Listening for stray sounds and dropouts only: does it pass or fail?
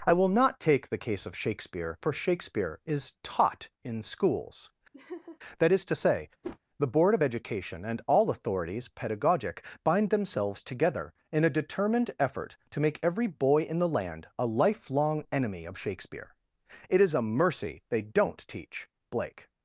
fail